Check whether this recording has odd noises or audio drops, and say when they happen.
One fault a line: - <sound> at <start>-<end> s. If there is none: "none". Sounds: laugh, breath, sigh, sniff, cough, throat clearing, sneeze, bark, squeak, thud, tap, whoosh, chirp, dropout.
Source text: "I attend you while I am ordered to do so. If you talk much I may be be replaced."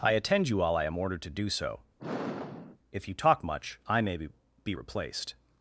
- sigh at 2.0-2.8 s